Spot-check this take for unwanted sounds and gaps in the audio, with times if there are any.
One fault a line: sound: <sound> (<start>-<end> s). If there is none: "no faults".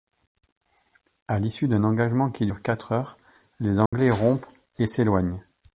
sound: dropout (3.9-3.9 s)